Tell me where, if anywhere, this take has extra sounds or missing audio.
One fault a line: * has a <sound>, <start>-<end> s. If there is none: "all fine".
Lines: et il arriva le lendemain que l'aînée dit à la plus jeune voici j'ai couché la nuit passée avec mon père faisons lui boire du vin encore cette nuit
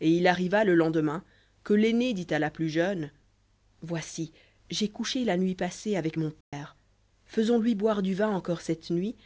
* has a dropout, 6.4-6.5 s